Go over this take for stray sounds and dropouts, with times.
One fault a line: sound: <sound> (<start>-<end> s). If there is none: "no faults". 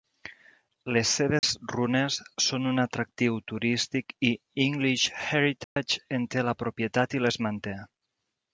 sound: dropout (1.4-1.4 s)
sound: dropout (5.6-5.8 s)